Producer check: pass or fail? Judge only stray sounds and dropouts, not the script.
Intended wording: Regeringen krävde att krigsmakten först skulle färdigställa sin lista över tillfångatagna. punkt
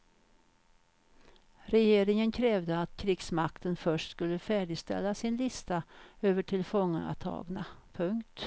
pass